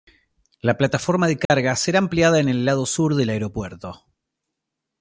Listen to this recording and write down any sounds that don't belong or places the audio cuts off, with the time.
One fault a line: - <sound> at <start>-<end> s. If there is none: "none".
- dropout at 1.4-1.5 s